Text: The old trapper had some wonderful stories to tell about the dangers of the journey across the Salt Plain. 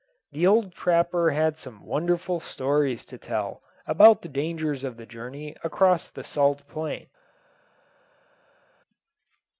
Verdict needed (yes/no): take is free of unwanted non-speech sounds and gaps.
yes